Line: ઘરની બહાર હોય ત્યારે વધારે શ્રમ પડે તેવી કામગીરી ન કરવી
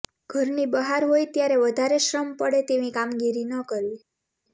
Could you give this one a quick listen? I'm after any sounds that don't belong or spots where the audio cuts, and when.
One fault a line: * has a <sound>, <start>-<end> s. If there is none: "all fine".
all fine